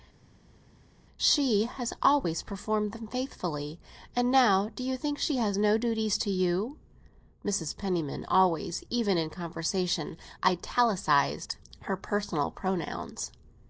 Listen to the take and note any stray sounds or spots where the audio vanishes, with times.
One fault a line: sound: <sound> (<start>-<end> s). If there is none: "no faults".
no faults